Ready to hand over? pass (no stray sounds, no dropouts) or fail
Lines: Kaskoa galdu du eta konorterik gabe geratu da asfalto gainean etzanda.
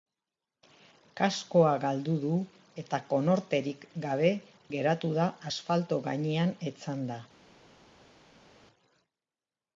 pass